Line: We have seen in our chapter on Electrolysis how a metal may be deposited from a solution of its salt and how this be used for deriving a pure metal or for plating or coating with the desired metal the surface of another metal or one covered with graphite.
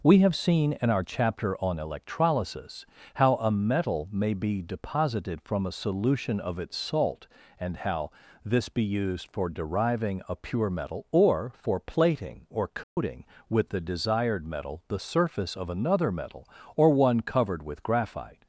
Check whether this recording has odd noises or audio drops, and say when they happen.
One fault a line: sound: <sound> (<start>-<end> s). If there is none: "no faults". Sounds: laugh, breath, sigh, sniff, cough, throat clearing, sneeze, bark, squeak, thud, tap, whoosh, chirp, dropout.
sound: dropout (12.8-13.0 s)